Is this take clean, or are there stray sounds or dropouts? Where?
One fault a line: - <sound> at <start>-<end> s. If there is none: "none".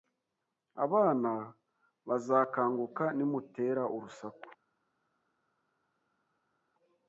none